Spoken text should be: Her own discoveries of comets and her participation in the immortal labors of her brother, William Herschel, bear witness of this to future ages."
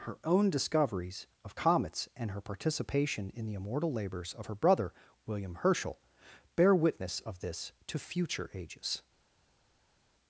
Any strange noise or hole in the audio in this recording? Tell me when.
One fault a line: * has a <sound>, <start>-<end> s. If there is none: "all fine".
all fine